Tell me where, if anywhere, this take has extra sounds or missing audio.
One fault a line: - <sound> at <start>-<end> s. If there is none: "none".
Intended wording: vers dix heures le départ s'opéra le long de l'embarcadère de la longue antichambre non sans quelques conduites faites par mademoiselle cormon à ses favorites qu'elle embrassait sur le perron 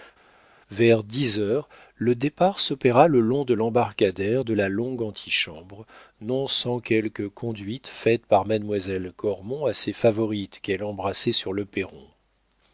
none